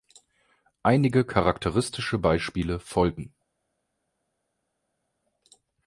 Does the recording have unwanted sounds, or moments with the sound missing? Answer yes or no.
no